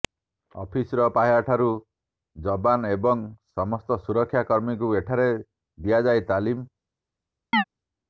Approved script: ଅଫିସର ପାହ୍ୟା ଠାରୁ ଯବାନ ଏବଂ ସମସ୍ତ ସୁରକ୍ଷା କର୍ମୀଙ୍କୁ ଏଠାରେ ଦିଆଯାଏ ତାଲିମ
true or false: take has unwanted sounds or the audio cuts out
true